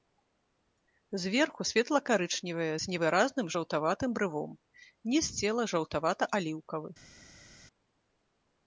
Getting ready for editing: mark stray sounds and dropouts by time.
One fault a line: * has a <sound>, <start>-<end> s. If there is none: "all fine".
all fine